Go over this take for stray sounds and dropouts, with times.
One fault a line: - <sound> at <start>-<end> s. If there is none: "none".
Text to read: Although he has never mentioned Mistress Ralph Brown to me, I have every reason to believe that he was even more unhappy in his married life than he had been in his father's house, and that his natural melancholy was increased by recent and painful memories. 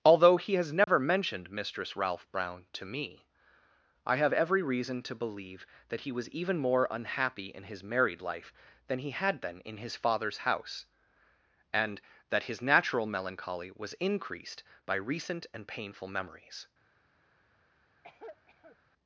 - dropout at 0.8-0.9 s
- cough at 18.0-18.8 s